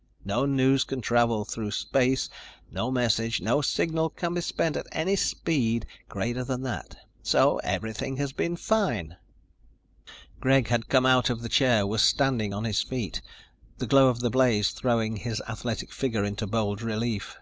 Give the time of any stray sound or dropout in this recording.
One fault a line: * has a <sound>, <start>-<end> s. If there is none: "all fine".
all fine